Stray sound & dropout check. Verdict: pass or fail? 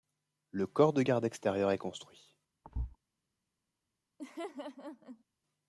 fail